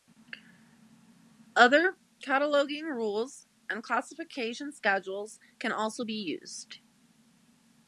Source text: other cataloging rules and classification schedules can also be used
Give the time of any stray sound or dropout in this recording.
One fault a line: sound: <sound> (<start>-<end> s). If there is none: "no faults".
no faults